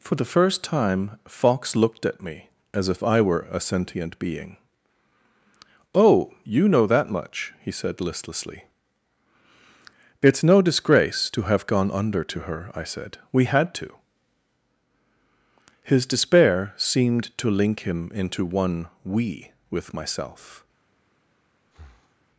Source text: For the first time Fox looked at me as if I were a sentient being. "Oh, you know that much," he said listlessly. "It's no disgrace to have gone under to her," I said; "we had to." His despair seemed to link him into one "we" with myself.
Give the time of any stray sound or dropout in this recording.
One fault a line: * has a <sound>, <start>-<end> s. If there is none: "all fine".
* has a breath, 21.7-22.2 s